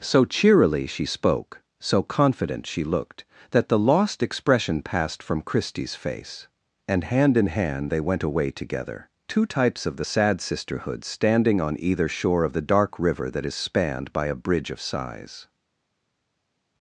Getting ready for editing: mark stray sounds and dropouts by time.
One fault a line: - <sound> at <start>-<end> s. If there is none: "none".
none